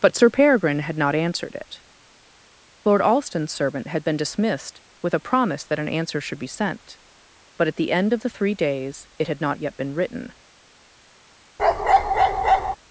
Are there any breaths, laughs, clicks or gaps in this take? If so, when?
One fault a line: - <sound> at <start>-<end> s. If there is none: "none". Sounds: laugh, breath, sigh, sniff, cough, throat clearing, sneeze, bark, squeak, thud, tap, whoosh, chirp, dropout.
- bark at 11.6-12.8 s